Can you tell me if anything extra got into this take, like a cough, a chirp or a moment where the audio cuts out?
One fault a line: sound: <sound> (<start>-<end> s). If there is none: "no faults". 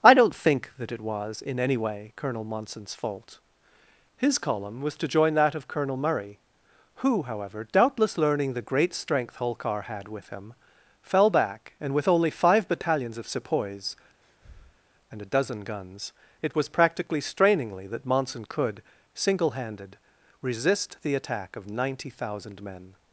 sound: breath (14.2-14.8 s)